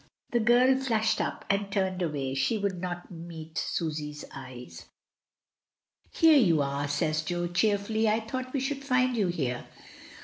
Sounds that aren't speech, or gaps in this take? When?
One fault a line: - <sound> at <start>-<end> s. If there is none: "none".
none